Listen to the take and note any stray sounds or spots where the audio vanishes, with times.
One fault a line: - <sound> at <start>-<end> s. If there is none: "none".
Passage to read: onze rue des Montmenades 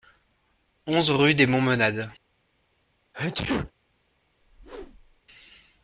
- sneeze at 3.1-3.7 s
- whoosh at 4.4-5.2 s